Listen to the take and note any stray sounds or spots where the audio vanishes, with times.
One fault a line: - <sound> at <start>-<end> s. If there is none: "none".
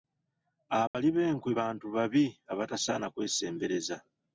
- dropout at 0.9-0.9 s